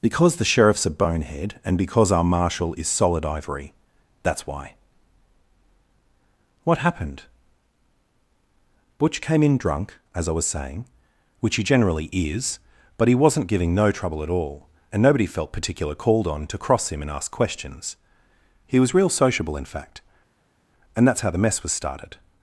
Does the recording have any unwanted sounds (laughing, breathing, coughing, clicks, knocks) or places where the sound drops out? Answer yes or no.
no